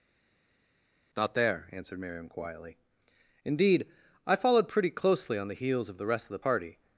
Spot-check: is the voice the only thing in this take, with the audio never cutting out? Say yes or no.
yes